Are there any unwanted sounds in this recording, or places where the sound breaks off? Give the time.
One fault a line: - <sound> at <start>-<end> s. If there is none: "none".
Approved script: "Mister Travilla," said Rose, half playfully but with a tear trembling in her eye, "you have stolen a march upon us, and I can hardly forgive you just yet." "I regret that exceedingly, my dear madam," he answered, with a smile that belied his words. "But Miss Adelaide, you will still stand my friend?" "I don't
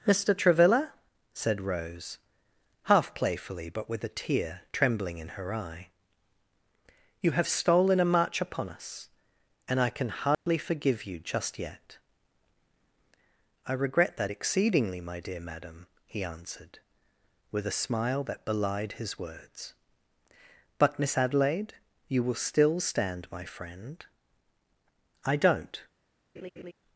- dropout at 10.3-10.5 s
- laugh at 26.4-26.7 s